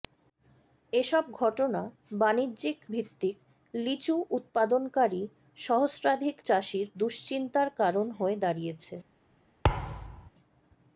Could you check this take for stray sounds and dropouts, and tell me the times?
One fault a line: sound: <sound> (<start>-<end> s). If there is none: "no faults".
sound: thud (9.6-10.3 s)